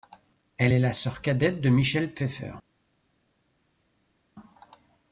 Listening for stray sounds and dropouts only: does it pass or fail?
pass